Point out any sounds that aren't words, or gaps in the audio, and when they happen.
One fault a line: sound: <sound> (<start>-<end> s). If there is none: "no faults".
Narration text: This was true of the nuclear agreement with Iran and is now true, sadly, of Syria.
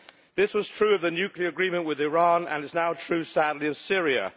no faults